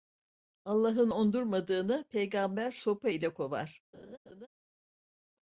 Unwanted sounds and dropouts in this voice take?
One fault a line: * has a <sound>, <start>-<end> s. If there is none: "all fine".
* has a laugh, 3.9-4.5 s